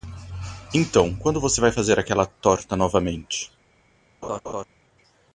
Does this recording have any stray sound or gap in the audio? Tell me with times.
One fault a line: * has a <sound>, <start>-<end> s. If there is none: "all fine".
* has a laugh, 4.2-4.7 s